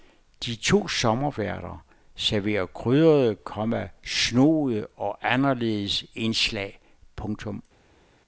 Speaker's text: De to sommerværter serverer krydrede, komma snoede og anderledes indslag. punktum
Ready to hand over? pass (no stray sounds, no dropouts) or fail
pass